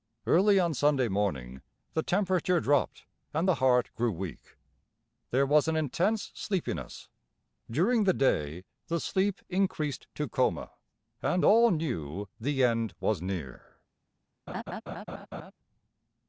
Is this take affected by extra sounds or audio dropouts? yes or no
yes